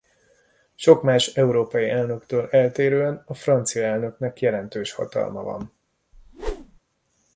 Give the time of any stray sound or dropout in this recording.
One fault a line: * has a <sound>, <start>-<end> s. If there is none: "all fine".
* has a whoosh, 6.1-6.8 s